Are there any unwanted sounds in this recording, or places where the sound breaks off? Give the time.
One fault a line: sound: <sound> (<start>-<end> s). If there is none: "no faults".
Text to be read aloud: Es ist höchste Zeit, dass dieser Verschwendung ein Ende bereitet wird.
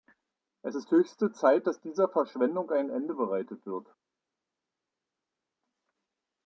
no faults